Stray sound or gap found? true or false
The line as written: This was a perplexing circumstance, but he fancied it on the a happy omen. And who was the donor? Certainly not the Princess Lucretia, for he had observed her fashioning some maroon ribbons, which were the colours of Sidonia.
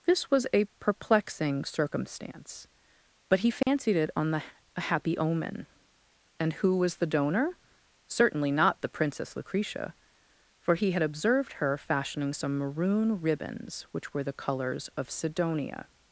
true